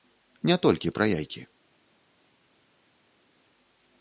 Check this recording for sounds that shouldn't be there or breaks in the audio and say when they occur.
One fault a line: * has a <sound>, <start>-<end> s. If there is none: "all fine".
all fine